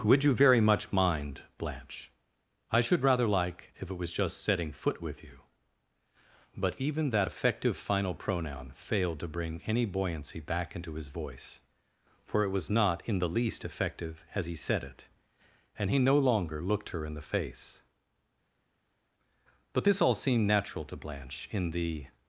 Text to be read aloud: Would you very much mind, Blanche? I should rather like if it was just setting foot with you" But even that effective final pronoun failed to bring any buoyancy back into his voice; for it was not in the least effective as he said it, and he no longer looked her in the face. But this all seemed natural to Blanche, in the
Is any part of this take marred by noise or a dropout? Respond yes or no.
no